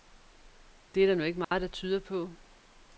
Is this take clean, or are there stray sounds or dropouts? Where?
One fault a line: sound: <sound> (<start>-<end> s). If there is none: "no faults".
sound: dropout (1.4-1.5 s)